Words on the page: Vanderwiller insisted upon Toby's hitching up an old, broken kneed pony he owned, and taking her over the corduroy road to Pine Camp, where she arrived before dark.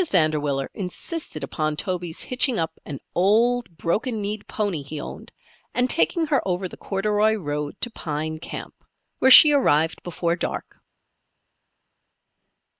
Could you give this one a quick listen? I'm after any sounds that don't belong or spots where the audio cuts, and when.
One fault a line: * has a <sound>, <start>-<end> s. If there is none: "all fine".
all fine